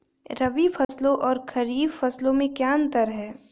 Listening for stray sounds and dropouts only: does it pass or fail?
fail